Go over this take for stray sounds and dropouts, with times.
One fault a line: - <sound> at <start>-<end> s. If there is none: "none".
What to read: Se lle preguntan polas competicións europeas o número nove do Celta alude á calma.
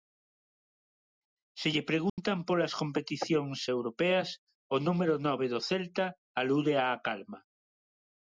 - dropout at 2.1-2.2 s